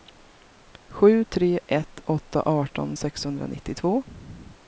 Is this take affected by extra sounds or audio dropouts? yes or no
no